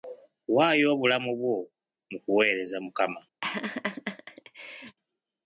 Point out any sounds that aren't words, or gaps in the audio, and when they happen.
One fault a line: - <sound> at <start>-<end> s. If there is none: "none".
- laugh at 3.4-5.0 s